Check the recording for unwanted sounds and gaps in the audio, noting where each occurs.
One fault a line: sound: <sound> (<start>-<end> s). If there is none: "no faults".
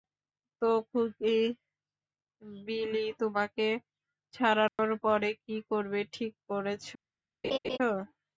sound: dropout (4.7-4.8 s)
sound: laugh (7.4-7.8 s)